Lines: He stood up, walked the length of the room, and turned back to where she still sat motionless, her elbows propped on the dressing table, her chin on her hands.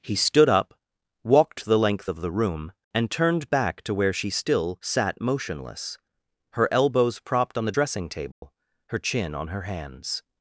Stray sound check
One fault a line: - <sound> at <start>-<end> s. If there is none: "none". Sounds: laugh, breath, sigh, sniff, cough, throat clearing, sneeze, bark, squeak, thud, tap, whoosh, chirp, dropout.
- dropout at 8.3-8.4 s